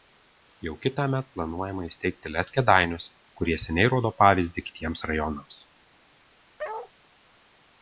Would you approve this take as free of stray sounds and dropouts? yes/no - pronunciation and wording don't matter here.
no